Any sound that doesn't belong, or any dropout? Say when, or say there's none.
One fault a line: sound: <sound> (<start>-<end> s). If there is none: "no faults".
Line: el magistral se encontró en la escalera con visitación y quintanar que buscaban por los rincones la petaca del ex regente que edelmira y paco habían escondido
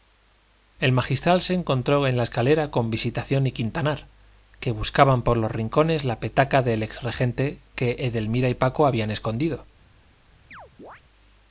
sound: chirp (10.5-11.0 s)